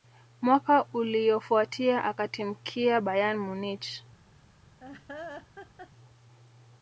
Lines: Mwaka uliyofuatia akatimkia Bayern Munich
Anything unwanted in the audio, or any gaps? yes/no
yes